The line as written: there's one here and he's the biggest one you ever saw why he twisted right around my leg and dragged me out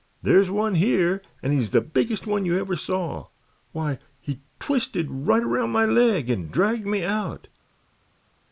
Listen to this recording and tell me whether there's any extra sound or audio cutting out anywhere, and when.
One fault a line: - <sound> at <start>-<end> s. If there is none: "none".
none